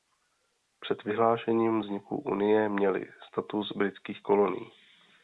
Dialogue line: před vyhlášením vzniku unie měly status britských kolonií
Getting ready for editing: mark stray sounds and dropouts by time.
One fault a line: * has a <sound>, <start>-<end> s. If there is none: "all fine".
all fine